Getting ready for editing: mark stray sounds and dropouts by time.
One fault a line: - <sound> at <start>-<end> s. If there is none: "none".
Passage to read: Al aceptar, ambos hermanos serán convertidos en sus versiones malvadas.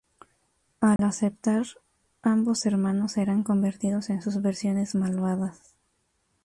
- dropout at 1.0-1.0 s